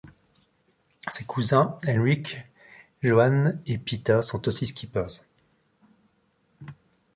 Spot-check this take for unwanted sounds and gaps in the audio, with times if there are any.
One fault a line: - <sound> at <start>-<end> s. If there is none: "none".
none